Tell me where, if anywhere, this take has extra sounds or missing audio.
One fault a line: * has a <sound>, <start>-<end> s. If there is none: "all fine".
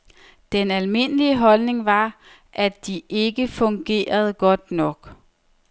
all fine